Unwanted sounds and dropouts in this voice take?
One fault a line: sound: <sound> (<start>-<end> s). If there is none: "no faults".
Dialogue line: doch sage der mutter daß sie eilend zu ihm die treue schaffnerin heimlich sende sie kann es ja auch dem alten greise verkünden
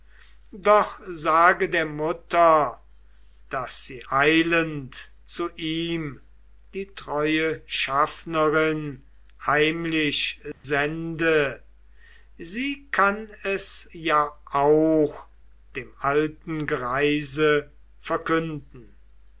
sound: dropout (10.5-10.6 s)